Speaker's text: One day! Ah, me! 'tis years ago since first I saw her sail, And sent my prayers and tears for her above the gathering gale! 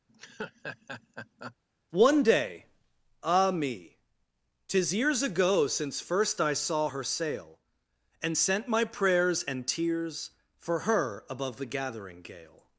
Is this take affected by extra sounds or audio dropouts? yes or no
yes